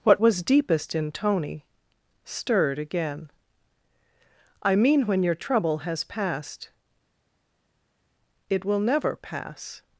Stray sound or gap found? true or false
false